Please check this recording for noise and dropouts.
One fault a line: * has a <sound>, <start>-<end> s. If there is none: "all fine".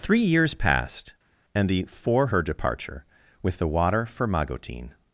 all fine